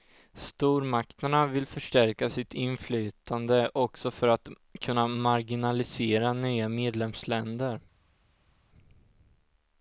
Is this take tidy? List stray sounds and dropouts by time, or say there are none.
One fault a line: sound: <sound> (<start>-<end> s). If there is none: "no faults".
no faults